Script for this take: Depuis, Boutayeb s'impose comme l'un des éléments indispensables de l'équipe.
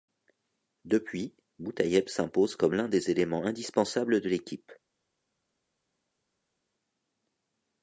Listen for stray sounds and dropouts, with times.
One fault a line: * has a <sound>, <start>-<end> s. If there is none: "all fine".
all fine